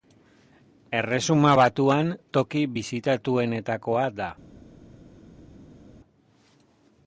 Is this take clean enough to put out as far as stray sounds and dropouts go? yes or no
yes